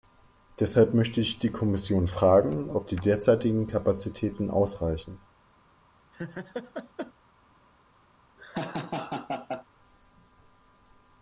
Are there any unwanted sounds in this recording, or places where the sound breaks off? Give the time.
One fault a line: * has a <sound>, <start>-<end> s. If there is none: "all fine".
* has a laugh, 6.1-7.1 s
* has a laugh, 8.4-9.7 s